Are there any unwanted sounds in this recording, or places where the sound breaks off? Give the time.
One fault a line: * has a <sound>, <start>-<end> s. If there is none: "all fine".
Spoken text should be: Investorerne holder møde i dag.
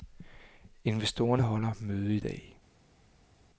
all fine